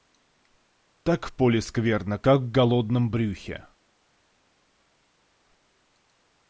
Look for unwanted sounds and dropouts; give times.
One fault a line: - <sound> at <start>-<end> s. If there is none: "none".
none